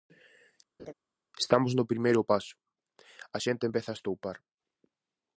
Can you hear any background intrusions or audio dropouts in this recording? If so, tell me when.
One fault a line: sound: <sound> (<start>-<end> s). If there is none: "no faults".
sound: laugh (0.8-0.9 s)